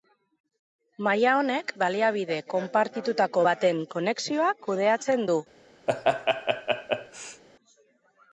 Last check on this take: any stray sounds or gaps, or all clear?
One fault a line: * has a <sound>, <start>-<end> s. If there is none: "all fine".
* has a laugh, 5.9-7.4 s